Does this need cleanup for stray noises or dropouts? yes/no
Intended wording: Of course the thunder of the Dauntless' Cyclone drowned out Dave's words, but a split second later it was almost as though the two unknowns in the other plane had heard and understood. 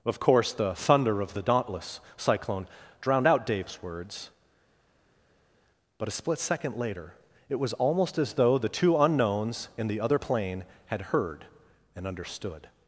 no